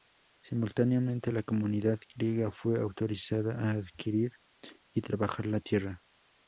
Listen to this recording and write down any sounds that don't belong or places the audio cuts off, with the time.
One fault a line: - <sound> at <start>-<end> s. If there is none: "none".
none